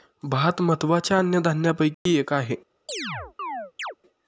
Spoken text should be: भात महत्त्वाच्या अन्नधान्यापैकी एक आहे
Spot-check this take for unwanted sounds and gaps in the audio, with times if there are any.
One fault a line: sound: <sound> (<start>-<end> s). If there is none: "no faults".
sound: dropout (1.9-2.1 s)
sound: chirp (2.9-4.0 s)